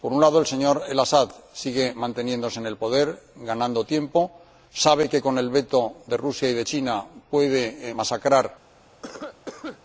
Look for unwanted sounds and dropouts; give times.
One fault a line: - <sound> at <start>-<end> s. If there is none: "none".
- cough at 9.0-9.8 s